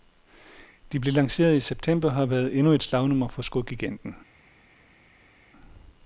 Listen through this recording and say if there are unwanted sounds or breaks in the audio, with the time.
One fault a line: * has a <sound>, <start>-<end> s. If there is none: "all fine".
all fine